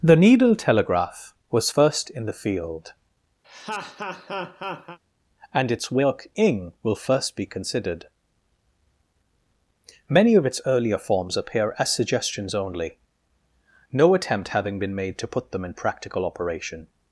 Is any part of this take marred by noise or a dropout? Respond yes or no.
yes